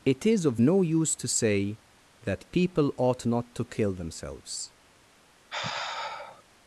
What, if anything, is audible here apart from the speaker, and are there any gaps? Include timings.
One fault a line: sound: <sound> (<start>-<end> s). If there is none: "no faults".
sound: sigh (5.5-6.4 s)